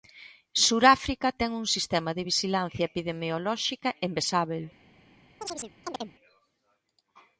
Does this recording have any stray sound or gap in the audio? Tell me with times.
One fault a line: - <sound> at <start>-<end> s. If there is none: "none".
- chirp at 5.4-6.1 s